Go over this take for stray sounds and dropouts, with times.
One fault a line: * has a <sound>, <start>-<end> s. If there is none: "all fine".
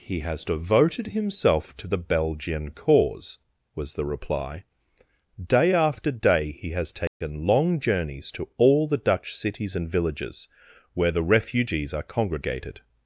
* has a dropout, 7.1-7.2 s